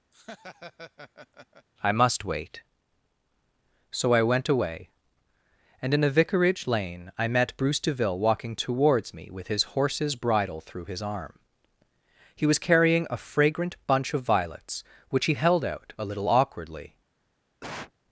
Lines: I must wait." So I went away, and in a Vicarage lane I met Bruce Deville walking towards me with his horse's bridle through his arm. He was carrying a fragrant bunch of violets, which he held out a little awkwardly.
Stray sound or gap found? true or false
true